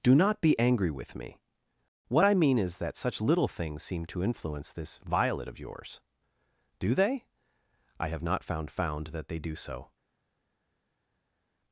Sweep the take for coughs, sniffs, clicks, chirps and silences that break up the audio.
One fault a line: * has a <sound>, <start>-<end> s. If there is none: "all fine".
all fine